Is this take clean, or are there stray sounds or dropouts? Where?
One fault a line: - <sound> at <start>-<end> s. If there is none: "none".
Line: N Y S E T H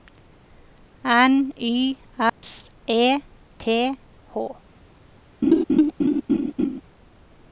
- dropout at 2.3-2.4 s
- laugh at 5.4-6.8 s